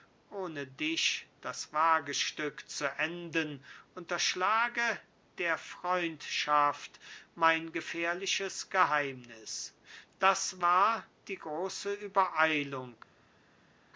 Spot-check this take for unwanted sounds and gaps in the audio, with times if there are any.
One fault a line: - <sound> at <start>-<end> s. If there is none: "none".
none